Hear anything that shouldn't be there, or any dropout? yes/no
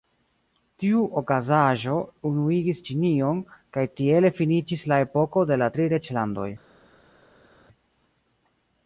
no